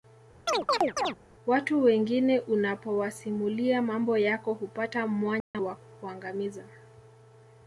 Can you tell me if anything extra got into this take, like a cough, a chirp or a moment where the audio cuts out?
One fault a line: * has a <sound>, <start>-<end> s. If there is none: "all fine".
* has a chirp, 0.5-1.2 s
* has a dropout, 5.4-5.5 s